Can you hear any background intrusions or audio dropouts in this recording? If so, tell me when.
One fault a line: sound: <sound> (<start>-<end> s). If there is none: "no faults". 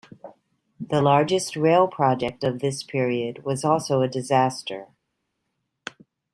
no faults